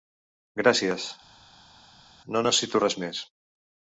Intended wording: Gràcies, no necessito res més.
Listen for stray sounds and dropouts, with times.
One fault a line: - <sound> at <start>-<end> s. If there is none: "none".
none